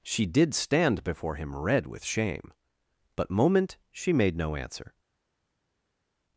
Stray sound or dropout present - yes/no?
no